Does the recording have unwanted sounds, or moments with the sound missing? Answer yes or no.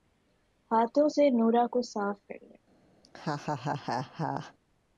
yes